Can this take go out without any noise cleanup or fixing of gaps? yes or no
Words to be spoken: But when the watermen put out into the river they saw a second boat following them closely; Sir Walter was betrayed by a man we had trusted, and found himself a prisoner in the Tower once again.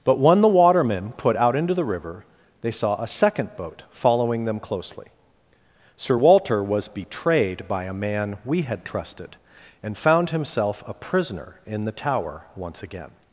yes